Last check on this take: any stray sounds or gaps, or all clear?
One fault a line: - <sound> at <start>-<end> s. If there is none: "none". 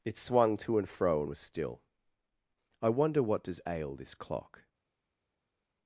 none